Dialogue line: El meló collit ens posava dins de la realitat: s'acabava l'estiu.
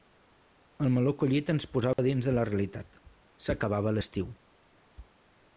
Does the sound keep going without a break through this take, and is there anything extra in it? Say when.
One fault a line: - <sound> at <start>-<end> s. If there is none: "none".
- dropout at 1.9-2.0 s